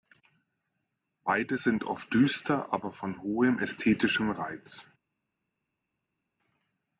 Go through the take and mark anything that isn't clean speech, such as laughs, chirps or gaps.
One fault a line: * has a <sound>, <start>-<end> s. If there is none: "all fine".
all fine